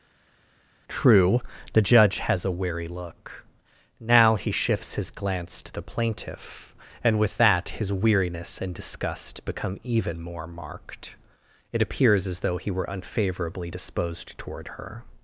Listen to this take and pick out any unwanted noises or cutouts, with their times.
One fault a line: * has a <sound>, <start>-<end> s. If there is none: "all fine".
all fine